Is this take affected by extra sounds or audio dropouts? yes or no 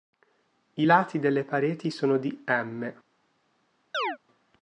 yes